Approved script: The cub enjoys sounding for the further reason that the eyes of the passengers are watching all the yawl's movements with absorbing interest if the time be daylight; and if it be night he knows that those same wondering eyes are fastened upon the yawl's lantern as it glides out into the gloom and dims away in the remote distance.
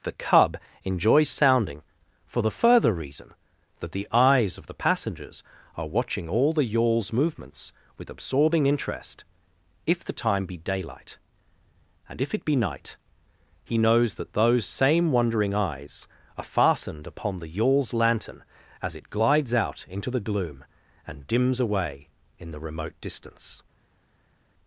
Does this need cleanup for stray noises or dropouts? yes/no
no